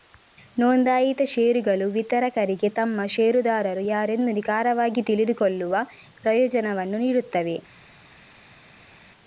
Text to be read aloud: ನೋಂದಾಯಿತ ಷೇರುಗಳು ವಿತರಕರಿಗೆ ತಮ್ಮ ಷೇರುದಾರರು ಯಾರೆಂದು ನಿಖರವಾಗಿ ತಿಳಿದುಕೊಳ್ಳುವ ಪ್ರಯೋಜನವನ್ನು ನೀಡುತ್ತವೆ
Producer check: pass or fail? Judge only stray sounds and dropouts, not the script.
pass